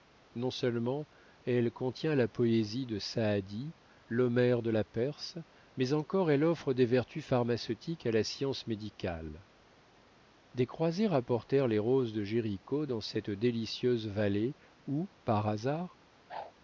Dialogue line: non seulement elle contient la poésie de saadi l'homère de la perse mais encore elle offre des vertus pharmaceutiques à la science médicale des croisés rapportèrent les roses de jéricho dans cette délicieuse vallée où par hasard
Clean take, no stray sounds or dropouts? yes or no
no